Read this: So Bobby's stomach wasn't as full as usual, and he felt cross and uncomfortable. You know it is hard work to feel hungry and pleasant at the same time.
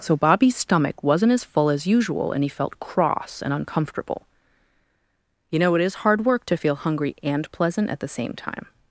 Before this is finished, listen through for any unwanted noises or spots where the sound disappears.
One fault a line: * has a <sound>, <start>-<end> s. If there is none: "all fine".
all fine